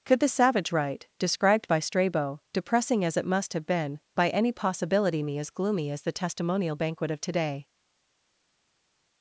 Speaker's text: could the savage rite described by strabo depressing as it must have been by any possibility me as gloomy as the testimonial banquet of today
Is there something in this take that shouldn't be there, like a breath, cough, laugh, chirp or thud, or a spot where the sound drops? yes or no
no